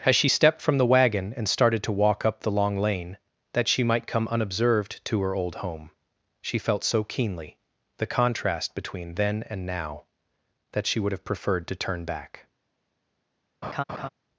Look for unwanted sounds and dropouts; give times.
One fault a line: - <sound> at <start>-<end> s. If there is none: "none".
- laugh at 13.6-14.1 s